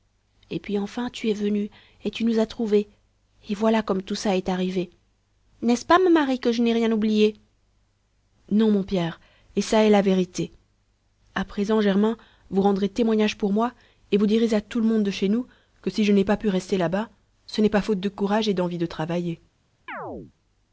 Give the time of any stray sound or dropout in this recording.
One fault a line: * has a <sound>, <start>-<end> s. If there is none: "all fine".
* has a chirp, 19.9-20.3 s